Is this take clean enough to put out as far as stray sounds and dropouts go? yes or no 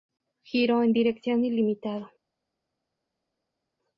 yes